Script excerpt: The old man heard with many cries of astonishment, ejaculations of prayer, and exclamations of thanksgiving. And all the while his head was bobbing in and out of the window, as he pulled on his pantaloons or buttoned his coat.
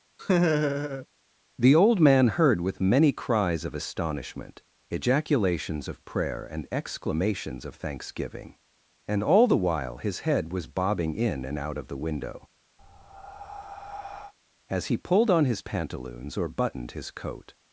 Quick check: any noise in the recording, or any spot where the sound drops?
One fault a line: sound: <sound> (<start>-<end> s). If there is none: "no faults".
sound: laugh (0.2-1.1 s)
sound: breath (12.8-14.3 s)